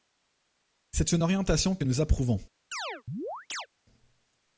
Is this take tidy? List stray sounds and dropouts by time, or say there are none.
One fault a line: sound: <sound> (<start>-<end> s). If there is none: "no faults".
sound: chirp (2.7-3.7 s)